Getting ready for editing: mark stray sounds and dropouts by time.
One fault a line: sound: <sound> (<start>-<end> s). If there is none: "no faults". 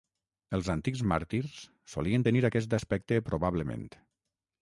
no faults